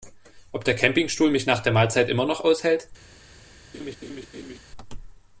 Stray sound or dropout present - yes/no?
yes